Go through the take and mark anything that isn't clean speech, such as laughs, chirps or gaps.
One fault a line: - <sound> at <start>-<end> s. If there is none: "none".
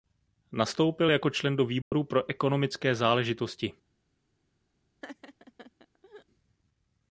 - dropout at 1.8-1.9 s
- laugh at 5.0-6.3 s